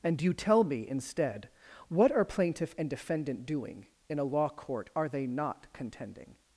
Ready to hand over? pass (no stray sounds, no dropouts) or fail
pass